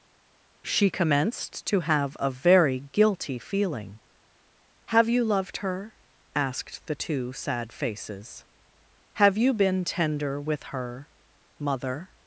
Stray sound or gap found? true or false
false